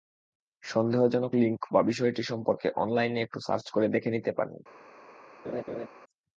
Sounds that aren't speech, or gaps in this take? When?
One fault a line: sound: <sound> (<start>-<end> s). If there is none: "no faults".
sound: laugh (5.4-5.9 s)